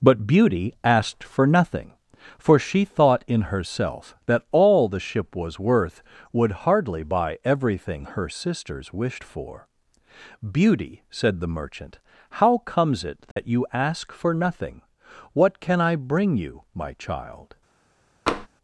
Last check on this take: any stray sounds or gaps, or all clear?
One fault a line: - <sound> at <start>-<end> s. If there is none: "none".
- dropout at 13.3-13.4 s
- tap at 18.3-18.5 s